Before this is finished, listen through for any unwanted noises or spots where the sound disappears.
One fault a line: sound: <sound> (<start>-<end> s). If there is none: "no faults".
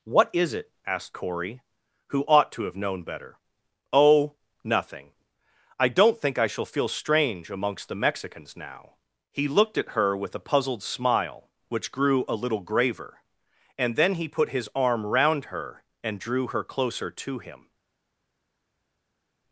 no faults